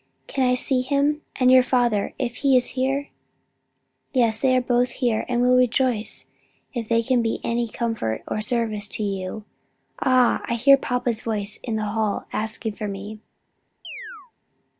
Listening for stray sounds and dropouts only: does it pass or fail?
fail